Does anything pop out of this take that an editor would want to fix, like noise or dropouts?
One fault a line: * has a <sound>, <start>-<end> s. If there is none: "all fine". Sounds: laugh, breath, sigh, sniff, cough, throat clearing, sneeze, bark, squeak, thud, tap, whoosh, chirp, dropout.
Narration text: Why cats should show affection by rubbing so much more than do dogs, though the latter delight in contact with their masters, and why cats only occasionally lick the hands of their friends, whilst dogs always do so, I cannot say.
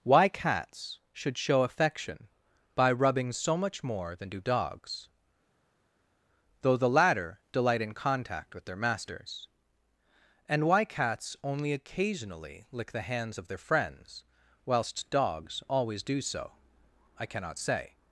all fine